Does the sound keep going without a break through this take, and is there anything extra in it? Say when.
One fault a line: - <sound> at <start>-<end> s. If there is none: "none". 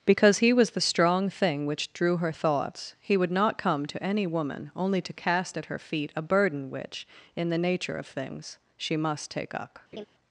- laugh at 9.9-10.0 s